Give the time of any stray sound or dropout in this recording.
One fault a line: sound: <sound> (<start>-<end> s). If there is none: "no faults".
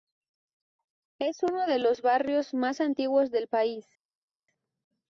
no faults